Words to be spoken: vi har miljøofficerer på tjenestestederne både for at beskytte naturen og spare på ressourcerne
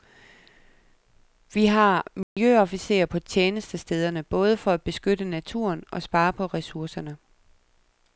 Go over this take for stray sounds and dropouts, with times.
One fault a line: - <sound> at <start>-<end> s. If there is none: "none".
- dropout at 2.2-2.4 s